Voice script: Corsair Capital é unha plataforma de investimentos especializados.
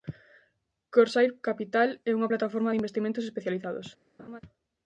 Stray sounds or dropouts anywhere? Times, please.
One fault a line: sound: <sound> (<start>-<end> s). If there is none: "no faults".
sound: laugh (4.2-4.4 s)